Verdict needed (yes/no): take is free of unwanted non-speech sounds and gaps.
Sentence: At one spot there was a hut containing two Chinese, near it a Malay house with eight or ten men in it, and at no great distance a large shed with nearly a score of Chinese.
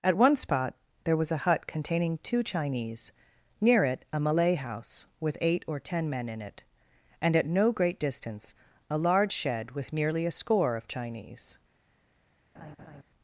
no